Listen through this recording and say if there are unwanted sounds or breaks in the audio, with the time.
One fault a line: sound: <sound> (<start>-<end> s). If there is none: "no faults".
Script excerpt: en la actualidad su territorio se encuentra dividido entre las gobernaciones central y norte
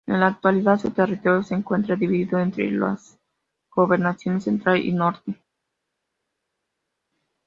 no faults